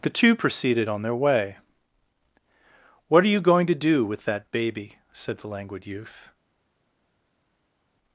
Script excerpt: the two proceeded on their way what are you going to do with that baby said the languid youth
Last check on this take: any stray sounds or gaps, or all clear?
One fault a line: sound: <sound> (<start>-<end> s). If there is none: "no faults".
no faults